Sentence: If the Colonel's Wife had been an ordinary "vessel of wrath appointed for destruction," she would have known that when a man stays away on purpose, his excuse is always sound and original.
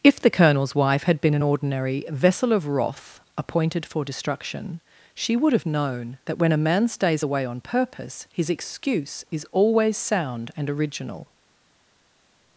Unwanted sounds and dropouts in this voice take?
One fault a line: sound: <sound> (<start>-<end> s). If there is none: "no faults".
no faults